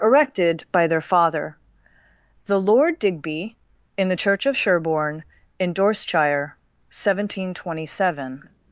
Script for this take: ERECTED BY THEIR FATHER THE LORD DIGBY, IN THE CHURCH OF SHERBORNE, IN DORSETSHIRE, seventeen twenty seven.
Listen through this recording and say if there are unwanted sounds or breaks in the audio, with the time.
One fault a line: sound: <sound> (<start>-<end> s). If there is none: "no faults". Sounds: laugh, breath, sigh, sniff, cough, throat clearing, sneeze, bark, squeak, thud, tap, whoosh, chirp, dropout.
no faults